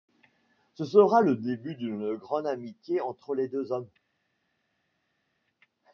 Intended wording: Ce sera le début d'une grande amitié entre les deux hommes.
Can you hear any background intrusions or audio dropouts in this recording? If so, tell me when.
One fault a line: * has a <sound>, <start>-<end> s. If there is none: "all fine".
all fine